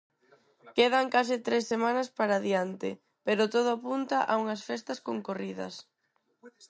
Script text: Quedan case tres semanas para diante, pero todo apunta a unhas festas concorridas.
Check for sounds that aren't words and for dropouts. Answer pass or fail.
pass